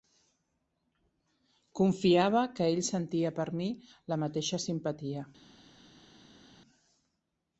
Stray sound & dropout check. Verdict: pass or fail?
pass